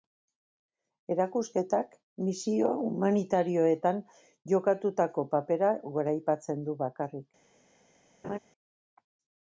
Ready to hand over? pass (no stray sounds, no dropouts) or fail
fail